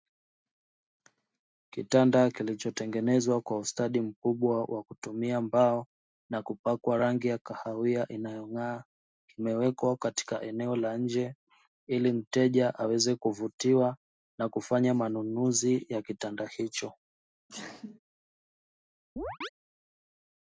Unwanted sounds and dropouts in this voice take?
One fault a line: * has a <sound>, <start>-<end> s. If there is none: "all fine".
* has a sneeze, 17.5-18.0 s
* has a chirp, 19.2-19.5 s